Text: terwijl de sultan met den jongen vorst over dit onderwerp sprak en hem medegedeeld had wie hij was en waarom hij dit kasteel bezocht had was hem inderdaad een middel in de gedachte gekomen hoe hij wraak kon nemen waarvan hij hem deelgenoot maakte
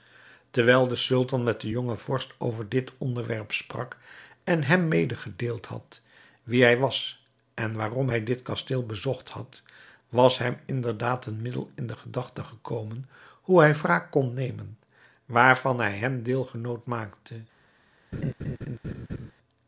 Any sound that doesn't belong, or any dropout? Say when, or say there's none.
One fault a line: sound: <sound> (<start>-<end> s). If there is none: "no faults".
sound: laugh (18.1-19.3 s)